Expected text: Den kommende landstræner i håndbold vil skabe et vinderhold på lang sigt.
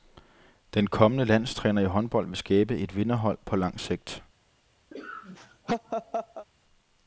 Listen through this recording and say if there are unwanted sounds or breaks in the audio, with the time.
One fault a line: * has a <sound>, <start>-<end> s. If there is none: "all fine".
* has a laugh, 4.9-6.5 s